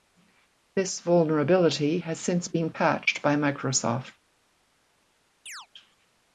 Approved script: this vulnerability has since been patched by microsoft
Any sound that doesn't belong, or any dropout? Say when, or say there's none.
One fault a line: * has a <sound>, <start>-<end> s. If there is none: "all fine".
* has a chirp, 5.5-5.7 s